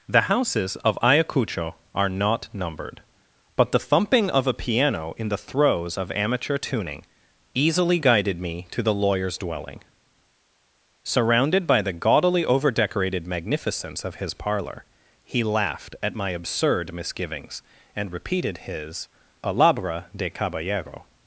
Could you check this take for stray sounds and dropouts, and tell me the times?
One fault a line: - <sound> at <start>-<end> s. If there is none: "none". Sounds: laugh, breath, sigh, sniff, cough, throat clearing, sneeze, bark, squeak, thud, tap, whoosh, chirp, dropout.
none